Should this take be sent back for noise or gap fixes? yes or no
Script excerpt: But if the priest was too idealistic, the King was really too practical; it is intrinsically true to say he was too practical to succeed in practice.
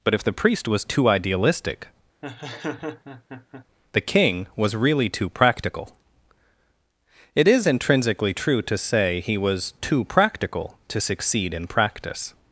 yes